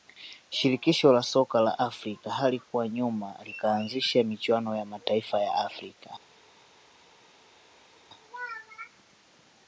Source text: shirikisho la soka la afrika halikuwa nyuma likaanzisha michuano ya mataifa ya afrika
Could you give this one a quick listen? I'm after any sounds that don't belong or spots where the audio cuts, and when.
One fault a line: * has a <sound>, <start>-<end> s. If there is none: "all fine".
all fine